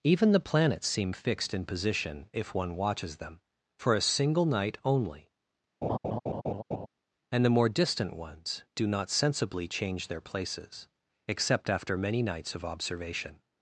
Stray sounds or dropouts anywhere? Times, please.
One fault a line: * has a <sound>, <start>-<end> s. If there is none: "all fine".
* has a laugh, 5.8-6.9 s